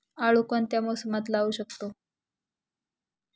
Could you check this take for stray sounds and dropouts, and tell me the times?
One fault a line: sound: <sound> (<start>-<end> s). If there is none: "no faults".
no faults